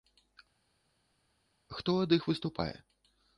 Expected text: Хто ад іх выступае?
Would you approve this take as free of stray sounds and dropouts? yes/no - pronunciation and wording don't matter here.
yes